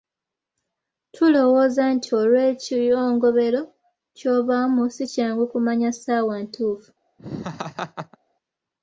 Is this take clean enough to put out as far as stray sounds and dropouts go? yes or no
no